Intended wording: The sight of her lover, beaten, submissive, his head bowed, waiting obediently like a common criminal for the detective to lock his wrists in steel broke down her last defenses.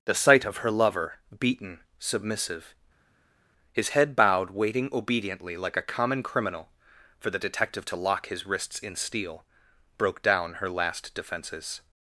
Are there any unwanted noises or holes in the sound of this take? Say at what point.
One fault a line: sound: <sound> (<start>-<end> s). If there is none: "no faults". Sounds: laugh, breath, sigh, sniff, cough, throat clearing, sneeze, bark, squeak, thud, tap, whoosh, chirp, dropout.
no faults